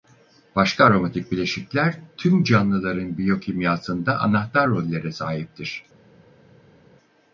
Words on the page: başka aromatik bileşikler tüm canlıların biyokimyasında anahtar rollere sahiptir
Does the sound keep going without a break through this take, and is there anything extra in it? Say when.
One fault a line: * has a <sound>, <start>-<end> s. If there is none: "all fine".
all fine